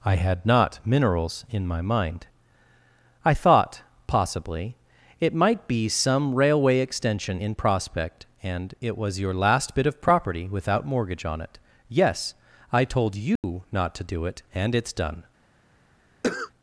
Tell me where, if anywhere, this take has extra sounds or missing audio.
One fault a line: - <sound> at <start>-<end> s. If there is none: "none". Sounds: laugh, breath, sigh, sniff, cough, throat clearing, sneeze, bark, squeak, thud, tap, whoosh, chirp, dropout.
- dropout at 13.4-13.4 s
- cough at 16.2-16.5 s